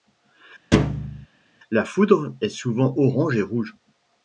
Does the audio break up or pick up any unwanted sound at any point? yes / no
yes